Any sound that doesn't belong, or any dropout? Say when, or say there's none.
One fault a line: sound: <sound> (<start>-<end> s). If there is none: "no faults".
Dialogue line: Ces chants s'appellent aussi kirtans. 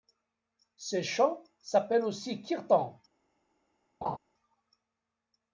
sound: laugh (4.0-4.2 s)